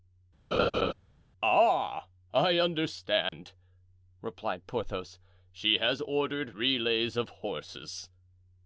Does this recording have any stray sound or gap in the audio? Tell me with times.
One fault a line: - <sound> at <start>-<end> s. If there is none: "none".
- laugh at 0.5-0.9 s
- dropout at 3.3-3.3 s